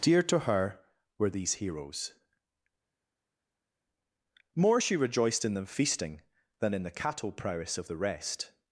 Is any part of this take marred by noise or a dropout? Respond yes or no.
no